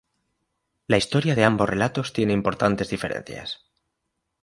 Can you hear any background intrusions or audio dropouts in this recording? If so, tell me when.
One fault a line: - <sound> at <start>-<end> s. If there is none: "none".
none